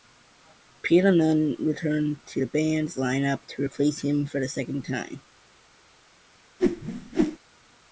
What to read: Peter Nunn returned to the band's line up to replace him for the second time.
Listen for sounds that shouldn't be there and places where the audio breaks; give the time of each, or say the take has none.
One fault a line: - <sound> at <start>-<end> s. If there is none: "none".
- whoosh at 6.6-7.4 s